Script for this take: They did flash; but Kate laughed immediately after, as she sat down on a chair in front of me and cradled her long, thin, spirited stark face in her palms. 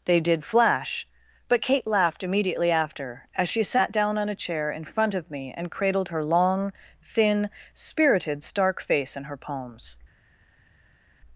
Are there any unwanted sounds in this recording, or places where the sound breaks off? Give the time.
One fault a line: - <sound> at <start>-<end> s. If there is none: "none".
none